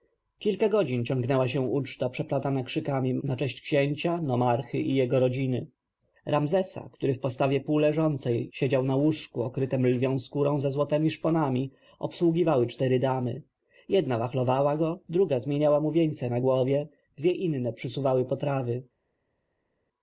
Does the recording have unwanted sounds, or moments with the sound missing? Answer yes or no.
no